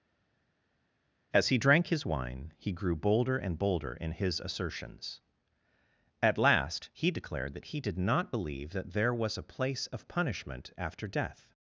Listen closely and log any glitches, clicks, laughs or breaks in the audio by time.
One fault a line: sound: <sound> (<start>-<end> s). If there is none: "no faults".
no faults